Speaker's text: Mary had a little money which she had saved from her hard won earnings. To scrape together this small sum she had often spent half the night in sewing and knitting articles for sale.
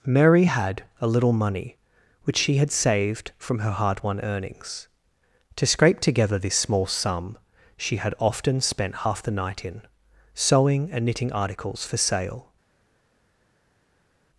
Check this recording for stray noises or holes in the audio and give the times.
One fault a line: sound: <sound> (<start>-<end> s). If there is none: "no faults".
no faults